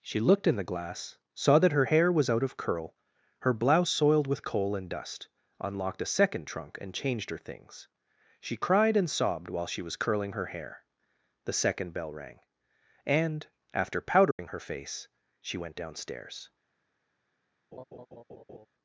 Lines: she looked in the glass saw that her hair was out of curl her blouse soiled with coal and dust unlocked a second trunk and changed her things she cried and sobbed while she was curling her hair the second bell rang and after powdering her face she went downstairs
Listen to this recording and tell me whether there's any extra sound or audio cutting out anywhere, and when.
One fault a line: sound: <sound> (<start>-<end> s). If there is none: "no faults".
sound: dropout (14.3-14.4 s)
sound: laugh (17.7-18.7 s)